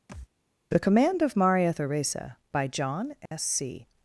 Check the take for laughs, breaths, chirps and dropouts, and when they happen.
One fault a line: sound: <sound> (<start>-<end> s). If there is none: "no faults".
sound: thud (0.1-0.3 s)
sound: dropout (3.3-3.3 s)